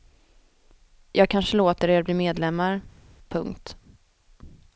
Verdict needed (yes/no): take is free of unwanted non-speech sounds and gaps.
yes